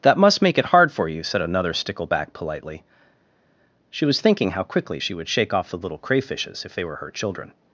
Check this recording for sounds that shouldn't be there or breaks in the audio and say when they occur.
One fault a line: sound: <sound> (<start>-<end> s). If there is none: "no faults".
no faults